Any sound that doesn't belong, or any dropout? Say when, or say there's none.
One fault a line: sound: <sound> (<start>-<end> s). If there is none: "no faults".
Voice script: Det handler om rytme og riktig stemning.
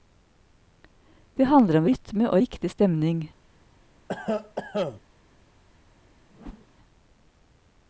sound: cough (4.1-5.0 s)
sound: whoosh (6.3-6.7 s)